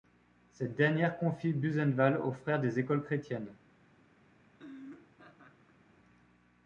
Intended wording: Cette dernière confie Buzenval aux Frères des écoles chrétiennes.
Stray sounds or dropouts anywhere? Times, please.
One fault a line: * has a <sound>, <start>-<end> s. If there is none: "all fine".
* has a laugh, 4.5-5.8 s